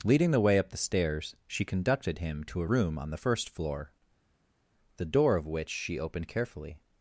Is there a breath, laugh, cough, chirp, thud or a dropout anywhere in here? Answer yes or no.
no